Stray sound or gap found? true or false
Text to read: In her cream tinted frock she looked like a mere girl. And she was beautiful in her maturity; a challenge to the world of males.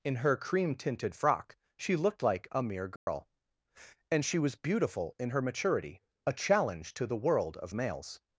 true